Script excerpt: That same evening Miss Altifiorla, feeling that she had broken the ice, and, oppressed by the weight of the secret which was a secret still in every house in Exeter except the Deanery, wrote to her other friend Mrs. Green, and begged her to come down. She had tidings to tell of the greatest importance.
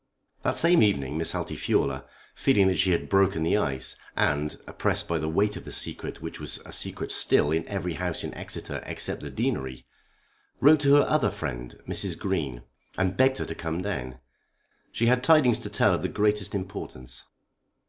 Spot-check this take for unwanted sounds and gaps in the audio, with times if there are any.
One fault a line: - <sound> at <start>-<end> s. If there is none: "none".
none